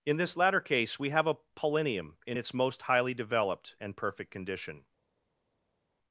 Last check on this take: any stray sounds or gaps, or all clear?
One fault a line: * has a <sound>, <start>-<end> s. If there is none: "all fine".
all fine